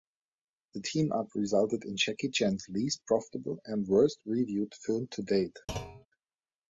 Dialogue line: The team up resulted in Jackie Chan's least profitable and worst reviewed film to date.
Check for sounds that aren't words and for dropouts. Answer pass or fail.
fail